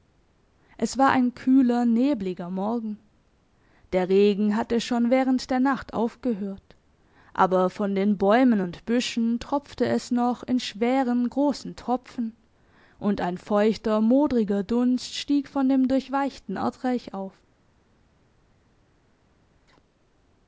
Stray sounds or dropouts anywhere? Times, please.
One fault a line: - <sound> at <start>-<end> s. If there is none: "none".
none